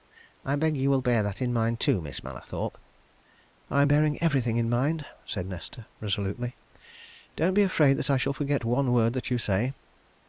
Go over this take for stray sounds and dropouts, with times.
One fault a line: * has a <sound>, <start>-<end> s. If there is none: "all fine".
all fine